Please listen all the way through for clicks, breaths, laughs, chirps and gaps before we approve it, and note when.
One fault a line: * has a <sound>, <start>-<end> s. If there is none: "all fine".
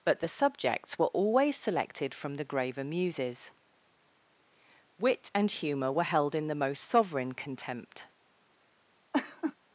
* has a laugh, 9.1-9.6 s